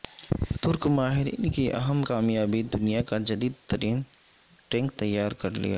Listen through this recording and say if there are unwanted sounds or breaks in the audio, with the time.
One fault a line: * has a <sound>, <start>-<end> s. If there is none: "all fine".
all fine